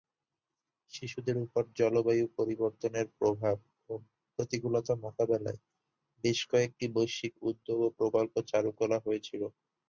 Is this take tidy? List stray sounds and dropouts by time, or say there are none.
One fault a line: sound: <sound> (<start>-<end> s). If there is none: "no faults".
no faults